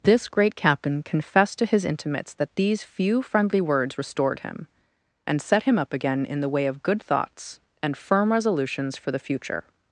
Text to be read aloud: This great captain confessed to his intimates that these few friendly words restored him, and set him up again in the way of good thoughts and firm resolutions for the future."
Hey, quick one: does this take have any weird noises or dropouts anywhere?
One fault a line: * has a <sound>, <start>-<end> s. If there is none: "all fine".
all fine